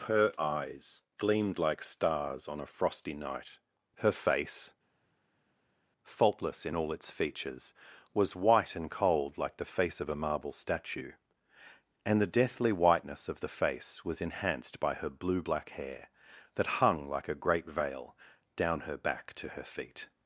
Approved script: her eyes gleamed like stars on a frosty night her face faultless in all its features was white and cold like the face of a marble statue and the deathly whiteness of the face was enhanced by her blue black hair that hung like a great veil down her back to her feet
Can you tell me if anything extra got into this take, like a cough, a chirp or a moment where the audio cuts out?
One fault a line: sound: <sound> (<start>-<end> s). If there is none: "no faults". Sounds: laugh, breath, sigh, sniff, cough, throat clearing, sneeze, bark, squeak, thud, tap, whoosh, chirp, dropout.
no faults